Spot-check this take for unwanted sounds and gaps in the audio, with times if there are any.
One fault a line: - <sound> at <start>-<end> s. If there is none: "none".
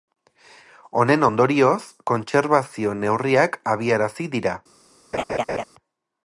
- laugh at 5.1-5.6 s